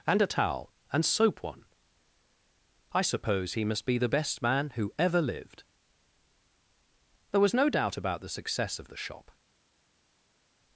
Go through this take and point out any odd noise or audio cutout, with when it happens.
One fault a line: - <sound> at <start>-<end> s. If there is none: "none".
none